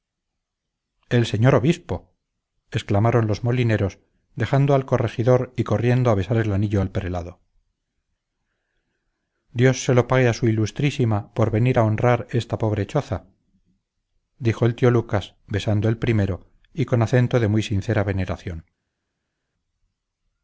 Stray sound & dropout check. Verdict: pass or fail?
pass